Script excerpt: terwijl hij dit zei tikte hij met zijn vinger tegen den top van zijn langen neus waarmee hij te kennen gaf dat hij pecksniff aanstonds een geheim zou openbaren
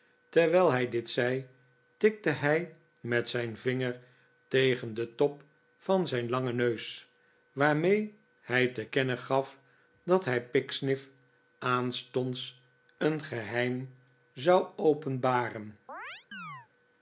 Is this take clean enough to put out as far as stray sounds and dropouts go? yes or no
no